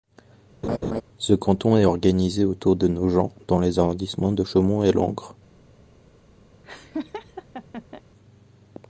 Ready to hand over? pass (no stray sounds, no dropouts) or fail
fail